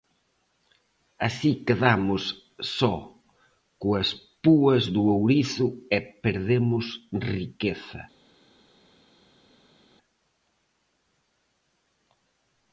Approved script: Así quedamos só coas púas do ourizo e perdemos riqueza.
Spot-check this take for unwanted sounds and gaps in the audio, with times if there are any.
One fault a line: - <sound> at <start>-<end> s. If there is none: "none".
none